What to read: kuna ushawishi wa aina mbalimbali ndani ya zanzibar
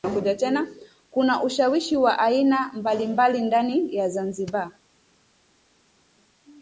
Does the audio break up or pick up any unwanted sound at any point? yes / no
no